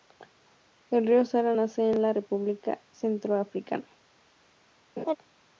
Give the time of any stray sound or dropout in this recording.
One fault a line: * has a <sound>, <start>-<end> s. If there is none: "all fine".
* has a laugh, 5.0-5.2 s